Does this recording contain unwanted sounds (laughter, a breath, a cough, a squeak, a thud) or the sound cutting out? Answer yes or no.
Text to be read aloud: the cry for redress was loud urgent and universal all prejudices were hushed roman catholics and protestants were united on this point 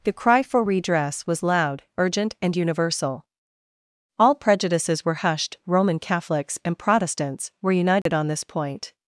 yes